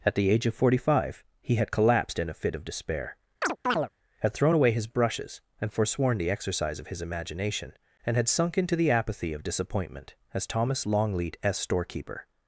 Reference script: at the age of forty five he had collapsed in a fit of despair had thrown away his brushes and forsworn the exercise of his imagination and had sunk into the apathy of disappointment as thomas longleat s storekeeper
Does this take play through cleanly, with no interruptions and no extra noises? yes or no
no